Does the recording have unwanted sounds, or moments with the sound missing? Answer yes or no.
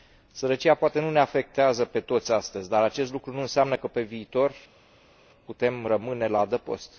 no